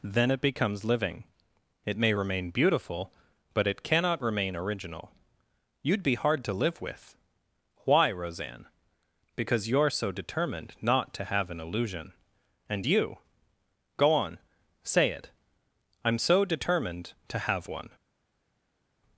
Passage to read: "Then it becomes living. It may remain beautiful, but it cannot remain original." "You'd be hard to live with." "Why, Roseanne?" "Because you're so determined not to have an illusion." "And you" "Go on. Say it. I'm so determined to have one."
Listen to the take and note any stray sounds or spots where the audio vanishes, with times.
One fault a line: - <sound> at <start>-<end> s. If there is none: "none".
none